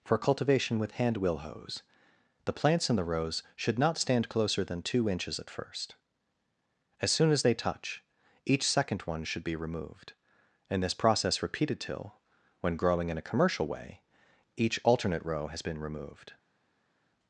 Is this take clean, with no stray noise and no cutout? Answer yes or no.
yes